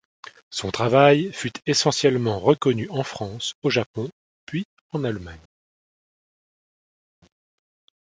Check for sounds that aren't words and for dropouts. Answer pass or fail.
pass